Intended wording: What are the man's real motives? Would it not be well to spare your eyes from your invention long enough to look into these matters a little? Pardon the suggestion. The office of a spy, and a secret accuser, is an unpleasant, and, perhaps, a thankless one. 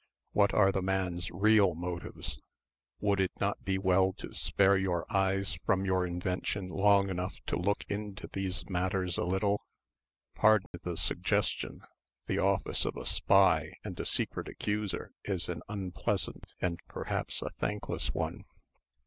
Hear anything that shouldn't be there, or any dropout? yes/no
yes